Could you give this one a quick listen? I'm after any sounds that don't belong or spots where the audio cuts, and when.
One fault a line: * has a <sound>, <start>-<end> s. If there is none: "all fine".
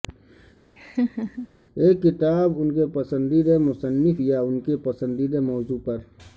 * has a laugh, 0.8-1.5 s